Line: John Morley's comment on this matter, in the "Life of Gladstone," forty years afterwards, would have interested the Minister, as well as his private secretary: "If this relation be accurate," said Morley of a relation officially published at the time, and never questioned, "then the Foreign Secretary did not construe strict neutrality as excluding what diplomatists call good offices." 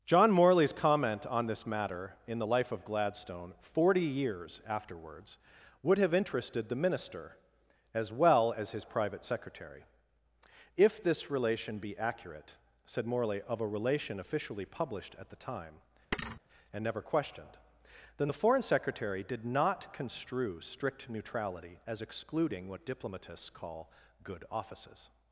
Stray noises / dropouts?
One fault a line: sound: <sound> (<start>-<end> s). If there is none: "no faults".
sound: thud (16.1-16.4 s)